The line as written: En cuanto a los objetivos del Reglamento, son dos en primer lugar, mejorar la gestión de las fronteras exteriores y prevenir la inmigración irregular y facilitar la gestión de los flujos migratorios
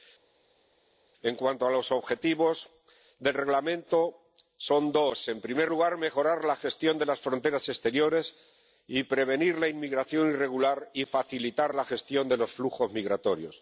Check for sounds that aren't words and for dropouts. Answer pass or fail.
pass